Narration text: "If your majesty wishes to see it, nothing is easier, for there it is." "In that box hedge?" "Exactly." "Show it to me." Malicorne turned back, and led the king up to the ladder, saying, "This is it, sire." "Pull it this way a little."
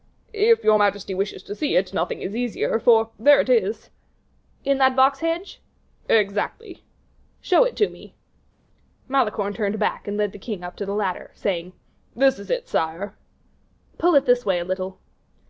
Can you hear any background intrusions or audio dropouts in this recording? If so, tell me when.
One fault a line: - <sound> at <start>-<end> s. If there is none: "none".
none